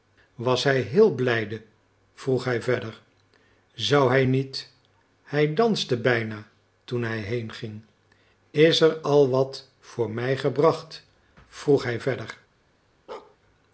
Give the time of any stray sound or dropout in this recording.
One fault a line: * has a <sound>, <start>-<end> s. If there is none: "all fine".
* has a bark, 13.1-13.4 s